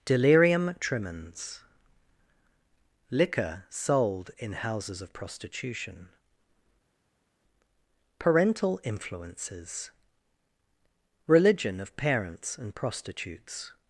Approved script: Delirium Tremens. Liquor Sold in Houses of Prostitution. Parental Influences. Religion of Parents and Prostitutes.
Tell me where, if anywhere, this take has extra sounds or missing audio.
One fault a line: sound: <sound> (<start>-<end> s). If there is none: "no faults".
no faults